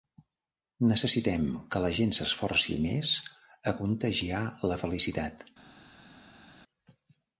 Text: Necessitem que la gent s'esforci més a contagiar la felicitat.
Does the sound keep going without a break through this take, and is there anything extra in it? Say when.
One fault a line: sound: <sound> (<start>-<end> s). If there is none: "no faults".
no faults